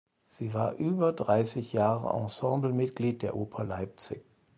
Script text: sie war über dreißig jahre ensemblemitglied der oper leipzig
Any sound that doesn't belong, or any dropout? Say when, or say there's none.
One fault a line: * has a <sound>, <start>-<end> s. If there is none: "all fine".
all fine